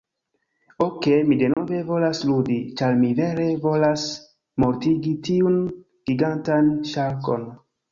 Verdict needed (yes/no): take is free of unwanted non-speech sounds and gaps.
no